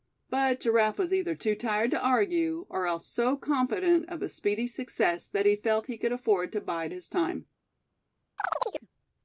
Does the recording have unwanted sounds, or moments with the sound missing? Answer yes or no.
yes